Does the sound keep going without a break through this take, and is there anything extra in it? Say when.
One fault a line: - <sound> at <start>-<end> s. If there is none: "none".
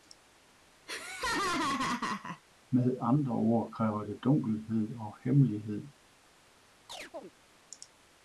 - laugh at 0.9-2.4 s
- chirp at 6.9-7.3 s